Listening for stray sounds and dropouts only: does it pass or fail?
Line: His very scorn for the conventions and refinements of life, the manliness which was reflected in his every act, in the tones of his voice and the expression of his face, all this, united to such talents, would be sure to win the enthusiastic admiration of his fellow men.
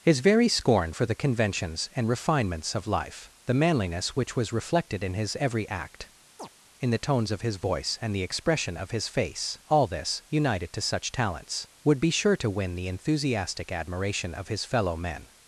fail